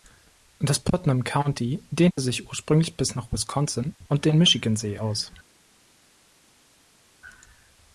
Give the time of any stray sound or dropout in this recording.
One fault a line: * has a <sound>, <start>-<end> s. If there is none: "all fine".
all fine